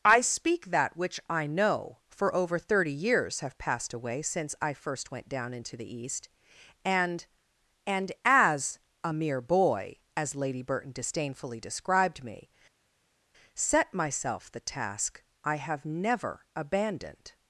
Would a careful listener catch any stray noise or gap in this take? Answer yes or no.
no